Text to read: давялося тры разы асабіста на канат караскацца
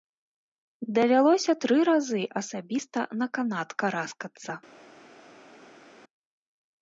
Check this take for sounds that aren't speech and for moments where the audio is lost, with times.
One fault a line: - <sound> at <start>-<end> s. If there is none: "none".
none